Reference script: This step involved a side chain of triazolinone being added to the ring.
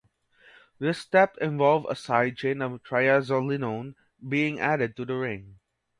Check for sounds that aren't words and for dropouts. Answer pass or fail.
pass